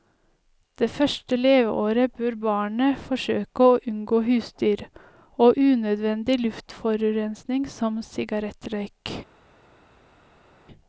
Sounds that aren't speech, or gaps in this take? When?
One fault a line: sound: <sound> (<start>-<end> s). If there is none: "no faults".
no faults